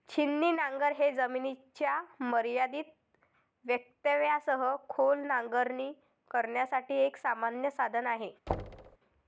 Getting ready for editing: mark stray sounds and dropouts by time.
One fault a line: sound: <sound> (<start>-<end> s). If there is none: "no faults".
sound: thud (8.5-9.0 s)